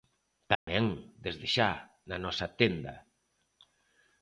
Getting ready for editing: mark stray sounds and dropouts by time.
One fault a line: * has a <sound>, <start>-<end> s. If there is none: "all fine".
* has a dropout, 0.6-0.7 s